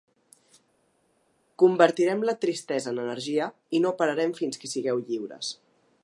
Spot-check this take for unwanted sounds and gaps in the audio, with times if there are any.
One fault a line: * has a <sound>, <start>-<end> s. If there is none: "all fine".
all fine